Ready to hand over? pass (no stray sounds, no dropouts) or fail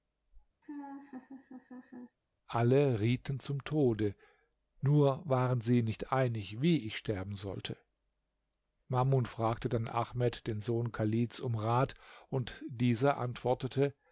fail